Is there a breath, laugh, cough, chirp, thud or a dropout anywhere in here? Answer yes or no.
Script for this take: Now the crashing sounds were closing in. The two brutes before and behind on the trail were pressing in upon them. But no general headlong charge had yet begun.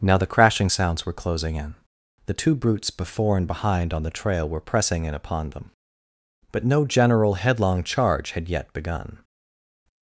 no